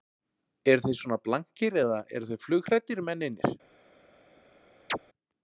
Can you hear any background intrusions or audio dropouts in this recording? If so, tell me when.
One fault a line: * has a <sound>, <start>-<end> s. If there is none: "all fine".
* has a chirp, 4.9-5.0 s